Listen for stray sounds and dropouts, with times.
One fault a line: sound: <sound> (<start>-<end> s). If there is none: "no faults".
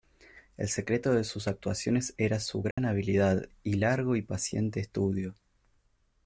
sound: dropout (2.7-2.8 s)